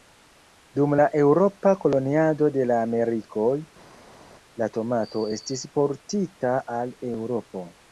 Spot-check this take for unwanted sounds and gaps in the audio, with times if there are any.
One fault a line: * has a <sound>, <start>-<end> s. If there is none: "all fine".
all fine